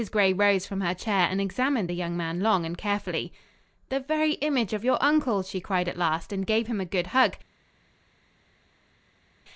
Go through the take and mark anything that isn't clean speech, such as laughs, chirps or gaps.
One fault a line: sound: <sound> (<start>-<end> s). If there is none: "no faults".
no faults